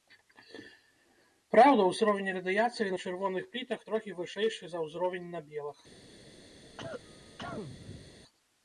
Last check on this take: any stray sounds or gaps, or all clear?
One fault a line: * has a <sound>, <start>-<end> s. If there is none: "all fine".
* has a cough, 6.6-8.1 s